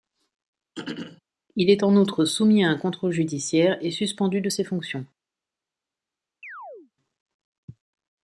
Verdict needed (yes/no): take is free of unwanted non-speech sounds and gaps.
no